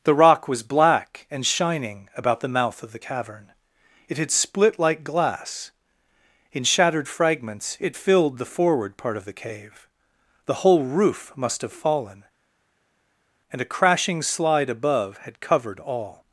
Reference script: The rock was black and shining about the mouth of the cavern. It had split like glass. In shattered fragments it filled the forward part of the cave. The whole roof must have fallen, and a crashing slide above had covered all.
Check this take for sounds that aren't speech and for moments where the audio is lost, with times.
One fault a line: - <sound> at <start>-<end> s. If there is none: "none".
none